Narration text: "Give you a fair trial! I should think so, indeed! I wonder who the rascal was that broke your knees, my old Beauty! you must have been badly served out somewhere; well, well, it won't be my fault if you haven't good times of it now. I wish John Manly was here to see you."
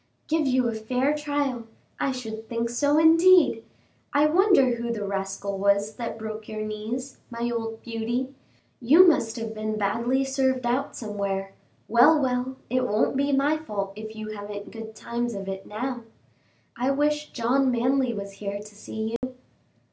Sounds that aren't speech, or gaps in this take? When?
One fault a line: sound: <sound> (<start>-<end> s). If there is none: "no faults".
sound: dropout (19.2-19.2 s)